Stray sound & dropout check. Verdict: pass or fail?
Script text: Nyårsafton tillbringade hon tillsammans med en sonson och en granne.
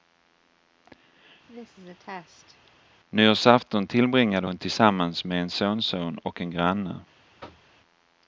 fail